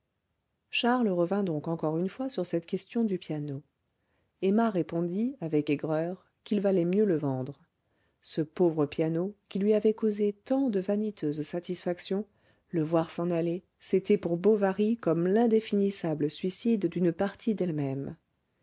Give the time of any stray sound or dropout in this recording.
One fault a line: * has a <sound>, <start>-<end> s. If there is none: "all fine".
all fine